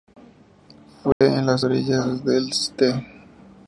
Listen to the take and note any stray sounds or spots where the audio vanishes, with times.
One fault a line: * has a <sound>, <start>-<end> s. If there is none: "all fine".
* has a dropout, 1.1-1.2 s